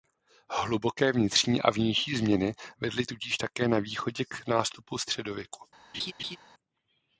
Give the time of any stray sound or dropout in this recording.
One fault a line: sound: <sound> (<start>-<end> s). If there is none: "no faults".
sound: laugh (5.9-6.4 s)